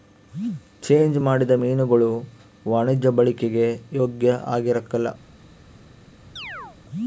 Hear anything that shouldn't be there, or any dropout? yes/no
yes